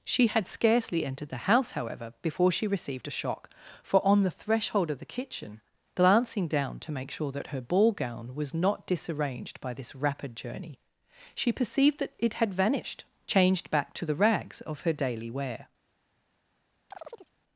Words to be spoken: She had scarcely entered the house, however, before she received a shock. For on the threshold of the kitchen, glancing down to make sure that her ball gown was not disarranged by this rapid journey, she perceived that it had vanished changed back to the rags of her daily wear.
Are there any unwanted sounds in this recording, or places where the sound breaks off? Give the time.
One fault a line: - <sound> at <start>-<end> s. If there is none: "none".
- chirp at 16.9-17.3 s